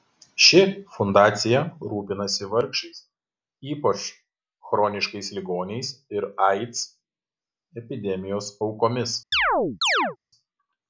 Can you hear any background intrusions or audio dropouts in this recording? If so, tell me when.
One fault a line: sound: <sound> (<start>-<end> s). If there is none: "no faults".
sound: chirp (9.3-10.2 s)